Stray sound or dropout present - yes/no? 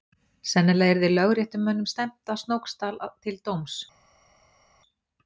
no